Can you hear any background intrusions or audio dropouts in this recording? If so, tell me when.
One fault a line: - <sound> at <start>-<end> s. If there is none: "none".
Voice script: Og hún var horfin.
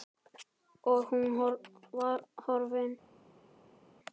none